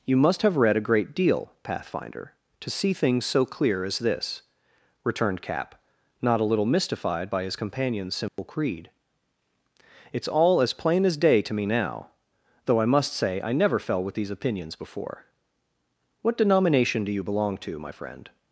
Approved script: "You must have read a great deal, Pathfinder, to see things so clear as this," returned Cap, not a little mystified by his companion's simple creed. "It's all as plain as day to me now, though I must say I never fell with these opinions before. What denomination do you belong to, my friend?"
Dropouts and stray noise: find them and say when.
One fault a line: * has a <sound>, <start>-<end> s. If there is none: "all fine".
* has a dropout, 8.3-8.4 s